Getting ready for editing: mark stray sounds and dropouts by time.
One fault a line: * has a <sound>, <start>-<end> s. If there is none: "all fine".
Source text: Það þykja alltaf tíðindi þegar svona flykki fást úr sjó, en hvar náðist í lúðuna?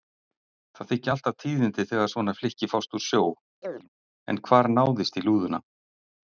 * has a chirp, 3.6-3.9 s